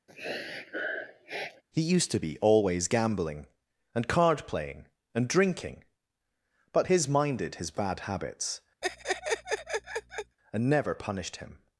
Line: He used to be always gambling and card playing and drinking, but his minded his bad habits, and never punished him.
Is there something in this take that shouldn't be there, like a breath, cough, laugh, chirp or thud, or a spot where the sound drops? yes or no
yes